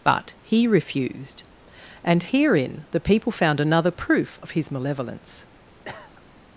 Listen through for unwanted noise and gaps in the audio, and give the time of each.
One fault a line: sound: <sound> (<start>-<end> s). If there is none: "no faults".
sound: cough (5.9-6.2 s)